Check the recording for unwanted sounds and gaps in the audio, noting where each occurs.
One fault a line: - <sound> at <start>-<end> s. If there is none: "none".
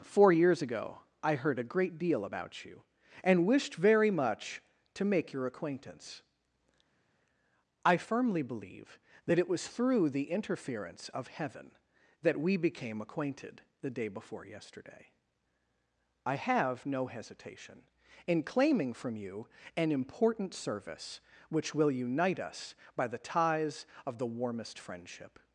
none